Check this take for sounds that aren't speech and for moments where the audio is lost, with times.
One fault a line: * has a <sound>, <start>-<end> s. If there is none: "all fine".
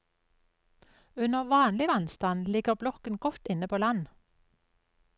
all fine